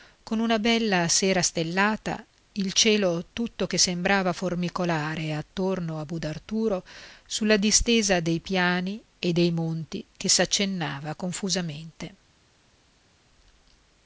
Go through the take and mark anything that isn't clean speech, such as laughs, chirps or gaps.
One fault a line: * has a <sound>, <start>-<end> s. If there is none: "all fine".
all fine